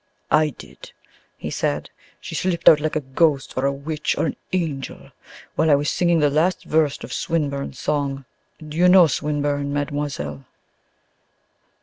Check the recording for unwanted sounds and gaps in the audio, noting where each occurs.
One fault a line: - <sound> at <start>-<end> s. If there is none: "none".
none